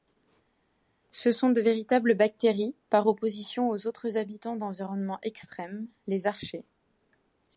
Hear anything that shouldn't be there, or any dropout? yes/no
no